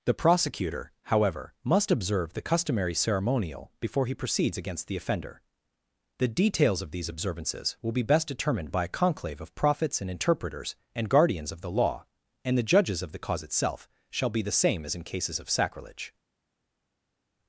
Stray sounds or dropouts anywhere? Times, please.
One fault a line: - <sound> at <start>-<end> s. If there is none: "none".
none